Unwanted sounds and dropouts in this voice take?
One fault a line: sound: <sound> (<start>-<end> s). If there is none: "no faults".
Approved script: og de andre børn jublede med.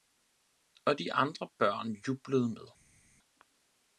no faults